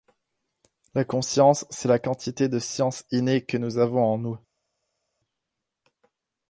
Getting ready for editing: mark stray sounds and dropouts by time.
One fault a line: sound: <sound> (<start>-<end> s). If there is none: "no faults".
no faults